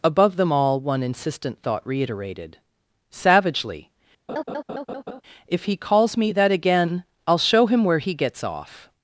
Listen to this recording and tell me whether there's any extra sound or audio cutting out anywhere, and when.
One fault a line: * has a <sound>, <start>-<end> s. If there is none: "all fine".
* has a laugh, 4.3-5.2 s